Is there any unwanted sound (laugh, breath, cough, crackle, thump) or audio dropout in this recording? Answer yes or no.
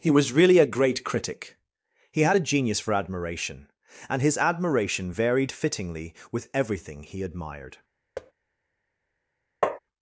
yes